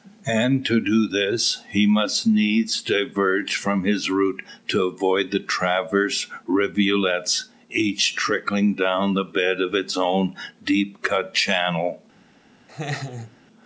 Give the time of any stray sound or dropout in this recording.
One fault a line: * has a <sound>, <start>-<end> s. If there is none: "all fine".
* has a laugh, 12.7-13.4 s